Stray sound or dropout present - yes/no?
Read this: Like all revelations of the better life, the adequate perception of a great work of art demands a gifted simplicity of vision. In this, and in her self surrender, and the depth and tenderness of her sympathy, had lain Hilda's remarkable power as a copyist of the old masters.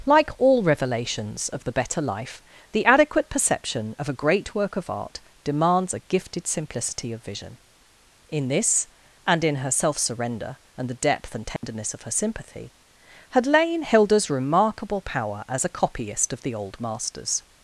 yes